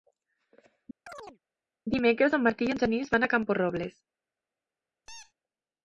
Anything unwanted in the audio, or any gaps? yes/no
yes